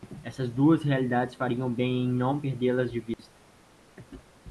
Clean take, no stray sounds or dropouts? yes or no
no